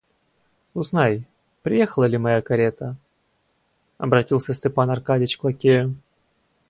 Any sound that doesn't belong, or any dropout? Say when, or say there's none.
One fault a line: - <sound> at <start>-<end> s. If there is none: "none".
none